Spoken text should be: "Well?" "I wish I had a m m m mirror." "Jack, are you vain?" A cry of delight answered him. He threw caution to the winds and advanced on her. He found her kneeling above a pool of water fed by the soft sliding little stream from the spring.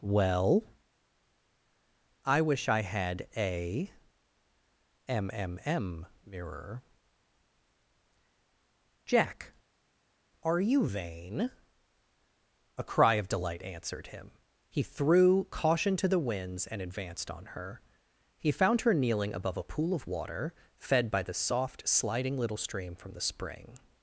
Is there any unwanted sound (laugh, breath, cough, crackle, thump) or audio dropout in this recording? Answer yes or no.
no